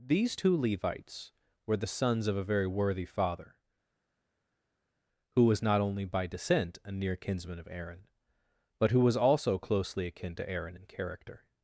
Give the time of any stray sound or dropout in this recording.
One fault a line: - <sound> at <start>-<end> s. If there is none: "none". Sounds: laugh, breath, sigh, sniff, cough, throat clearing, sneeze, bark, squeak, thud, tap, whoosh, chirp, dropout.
none